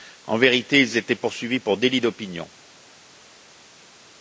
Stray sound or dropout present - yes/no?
no